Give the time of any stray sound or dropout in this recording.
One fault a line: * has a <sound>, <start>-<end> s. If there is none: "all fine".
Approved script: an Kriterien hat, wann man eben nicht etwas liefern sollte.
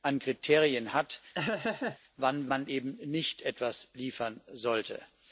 * has a laugh, 1.3-2.0 s